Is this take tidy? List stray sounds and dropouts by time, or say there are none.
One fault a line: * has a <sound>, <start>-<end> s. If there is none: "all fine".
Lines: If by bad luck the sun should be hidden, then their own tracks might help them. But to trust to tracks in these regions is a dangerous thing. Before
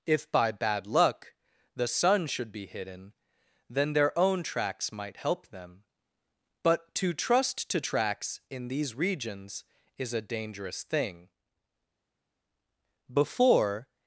all fine